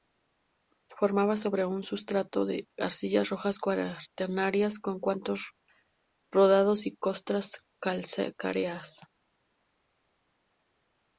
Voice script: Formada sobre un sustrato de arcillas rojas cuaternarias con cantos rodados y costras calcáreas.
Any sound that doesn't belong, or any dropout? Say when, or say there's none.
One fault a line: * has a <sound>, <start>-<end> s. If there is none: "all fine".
all fine